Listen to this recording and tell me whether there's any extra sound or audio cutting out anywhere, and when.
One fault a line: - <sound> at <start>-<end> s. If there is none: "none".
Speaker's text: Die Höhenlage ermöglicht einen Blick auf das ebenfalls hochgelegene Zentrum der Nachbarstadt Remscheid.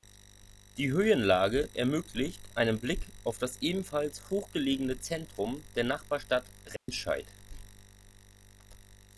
- dropout at 6.8-6.9 s